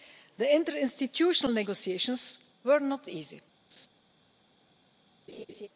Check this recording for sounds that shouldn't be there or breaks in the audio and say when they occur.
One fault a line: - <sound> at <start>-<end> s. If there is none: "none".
- laugh at 3.7-3.9 s
- laugh at 5.3-5.7 s